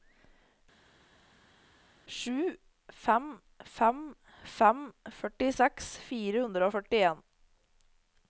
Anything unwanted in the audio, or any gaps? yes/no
no